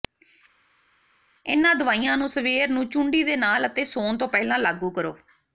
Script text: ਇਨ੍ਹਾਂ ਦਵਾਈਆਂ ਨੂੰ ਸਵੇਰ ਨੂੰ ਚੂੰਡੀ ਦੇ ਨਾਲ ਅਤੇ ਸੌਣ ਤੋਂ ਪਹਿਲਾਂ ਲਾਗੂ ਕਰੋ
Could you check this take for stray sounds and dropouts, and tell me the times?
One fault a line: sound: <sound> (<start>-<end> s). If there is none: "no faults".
no faults